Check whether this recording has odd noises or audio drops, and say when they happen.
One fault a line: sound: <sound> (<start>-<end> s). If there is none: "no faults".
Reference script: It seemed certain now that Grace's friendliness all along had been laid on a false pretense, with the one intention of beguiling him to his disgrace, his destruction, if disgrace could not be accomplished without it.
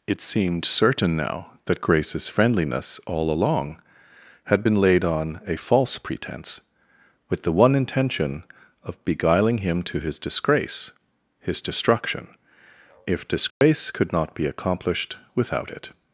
sound: dropout (13.5-13.6 s)